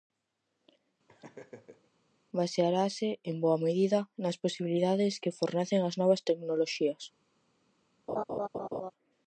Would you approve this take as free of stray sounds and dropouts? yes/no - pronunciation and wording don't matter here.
no